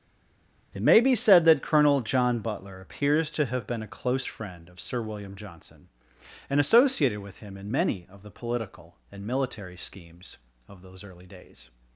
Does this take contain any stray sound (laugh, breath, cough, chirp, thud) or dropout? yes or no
no